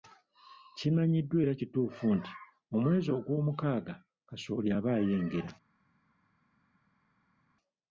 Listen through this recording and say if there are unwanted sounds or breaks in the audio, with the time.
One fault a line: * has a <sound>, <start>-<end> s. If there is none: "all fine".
all fine